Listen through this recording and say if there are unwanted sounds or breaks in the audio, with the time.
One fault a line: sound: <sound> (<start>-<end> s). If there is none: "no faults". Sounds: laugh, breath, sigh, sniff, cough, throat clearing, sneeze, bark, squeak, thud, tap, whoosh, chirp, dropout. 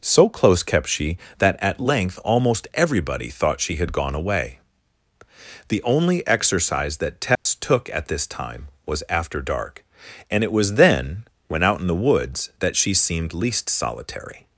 sound: dropout (7.4-7.5 s)